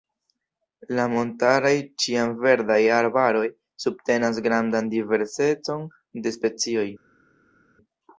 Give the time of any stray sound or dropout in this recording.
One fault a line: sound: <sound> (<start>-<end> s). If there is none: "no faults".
no faults